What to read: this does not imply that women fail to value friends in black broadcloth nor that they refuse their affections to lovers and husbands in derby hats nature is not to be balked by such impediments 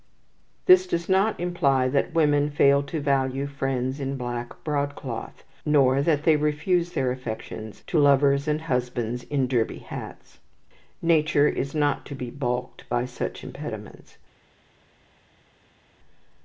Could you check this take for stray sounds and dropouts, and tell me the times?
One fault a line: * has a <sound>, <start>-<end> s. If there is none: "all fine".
all fine